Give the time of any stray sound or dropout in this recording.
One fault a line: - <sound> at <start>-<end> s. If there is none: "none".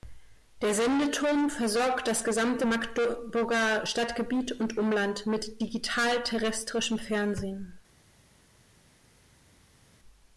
none